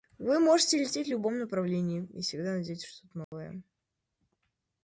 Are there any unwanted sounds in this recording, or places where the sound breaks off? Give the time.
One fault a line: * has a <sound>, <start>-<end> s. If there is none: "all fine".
* has a dropout, 3.2-3.3 s